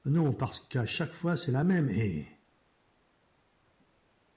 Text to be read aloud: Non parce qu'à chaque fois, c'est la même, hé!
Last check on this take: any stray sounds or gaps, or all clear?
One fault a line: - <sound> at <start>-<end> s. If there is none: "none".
none